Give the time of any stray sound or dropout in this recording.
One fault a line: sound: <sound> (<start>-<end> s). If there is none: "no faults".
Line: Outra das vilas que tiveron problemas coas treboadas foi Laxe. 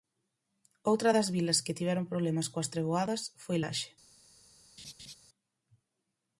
sound: laugh (4.8-5.1 s)